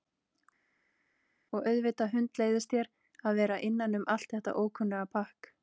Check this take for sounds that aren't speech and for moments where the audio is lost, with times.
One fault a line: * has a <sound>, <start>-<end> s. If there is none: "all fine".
all fine